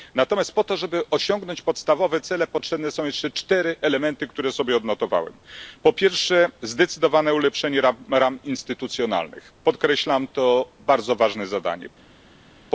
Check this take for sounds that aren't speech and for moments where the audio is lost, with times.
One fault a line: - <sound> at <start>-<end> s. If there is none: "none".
none